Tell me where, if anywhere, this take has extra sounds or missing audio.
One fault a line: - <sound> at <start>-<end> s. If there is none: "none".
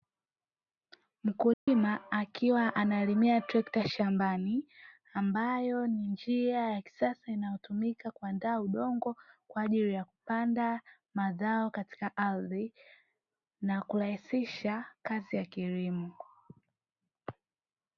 - dropout at 1.5-1.7 s